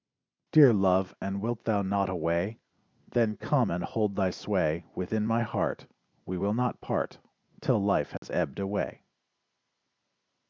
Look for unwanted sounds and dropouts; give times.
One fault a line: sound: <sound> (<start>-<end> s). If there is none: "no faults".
sound: dropout (8.2-8.2 s)